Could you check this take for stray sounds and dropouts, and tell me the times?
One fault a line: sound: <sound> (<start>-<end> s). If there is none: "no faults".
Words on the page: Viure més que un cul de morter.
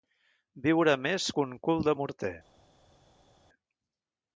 no faults